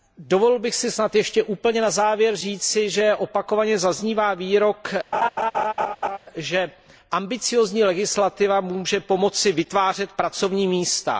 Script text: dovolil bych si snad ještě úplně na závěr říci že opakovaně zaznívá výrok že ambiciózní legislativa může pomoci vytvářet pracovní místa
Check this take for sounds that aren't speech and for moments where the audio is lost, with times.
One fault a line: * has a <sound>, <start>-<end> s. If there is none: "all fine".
* has a laugh, 5.1-6.2 s